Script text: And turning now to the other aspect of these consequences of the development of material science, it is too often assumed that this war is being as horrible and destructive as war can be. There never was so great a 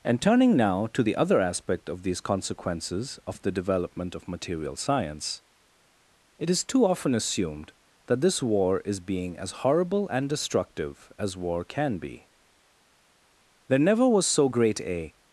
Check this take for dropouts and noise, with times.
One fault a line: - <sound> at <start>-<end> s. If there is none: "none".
none